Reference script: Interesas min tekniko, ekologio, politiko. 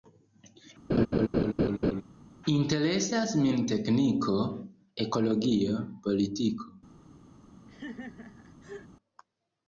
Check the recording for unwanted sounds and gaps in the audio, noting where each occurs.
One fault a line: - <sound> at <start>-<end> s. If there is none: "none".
- laugh at 0.9-2.0 s
- laugh at 7.7-8.9 s